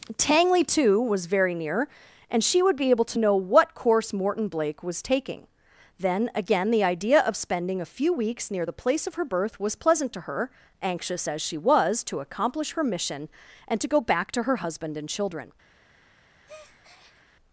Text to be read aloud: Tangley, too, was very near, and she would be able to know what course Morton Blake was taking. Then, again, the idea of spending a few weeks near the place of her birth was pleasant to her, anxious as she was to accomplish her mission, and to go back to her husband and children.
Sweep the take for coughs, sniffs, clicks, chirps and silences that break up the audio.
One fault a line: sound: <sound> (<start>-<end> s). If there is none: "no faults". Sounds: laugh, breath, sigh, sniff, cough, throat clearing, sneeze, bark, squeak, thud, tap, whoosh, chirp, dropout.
sound: breath (16.4-17.2 s)